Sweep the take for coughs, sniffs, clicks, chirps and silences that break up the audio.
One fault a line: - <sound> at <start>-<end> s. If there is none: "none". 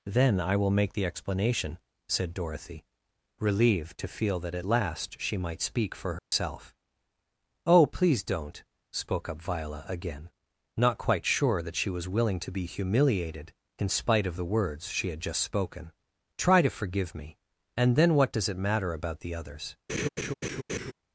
- dropout at 6.2-6.3 s
- laugh at 19.9-20.9 s